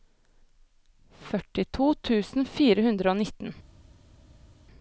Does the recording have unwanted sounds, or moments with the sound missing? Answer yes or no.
no